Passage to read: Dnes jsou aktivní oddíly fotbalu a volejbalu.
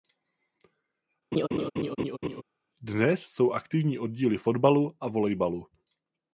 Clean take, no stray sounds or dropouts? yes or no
no